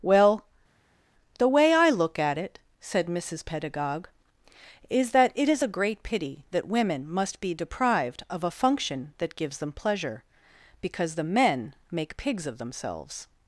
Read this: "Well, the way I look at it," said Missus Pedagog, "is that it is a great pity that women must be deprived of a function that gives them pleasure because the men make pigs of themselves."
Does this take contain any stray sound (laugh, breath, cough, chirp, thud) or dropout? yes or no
no